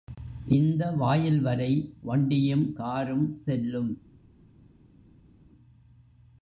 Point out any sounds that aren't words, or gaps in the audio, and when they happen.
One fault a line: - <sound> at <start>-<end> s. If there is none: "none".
none